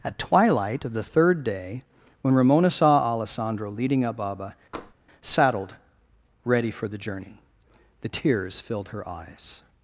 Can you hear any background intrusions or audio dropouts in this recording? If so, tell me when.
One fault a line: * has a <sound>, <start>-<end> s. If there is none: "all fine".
* has a tap, 4.7-4.9 s